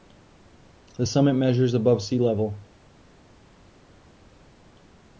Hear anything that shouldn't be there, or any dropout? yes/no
no